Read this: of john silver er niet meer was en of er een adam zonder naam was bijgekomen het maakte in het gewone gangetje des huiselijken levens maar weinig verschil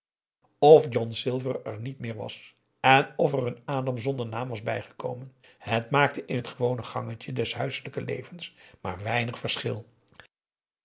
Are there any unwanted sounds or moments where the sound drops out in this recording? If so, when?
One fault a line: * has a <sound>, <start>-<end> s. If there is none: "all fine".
all fine